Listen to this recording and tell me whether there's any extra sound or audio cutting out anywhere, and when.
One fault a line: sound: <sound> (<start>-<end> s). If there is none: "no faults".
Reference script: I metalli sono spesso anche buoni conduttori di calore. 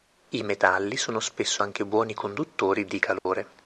sound: dropout (3.2-3.3 s)